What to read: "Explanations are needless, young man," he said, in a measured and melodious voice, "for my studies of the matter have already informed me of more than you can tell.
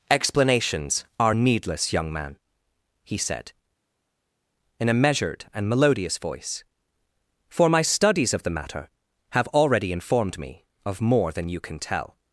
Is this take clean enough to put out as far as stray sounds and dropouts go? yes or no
yes